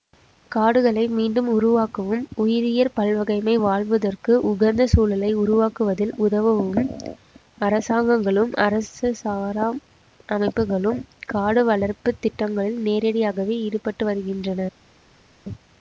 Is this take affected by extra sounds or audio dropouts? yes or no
no